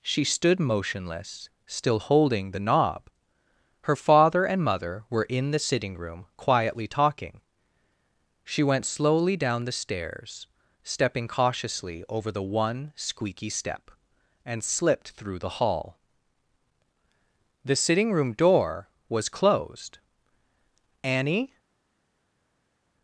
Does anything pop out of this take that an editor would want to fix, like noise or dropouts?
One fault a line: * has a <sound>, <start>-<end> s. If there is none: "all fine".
all fine